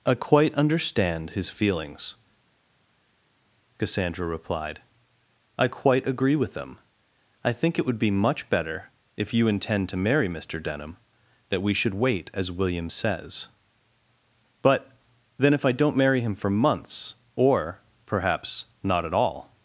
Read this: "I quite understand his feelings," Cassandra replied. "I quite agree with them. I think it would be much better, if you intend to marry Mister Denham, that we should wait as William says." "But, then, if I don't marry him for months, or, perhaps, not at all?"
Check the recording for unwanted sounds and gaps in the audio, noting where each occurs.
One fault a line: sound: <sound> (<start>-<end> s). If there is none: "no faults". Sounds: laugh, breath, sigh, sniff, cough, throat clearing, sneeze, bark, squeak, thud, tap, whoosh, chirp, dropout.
no faults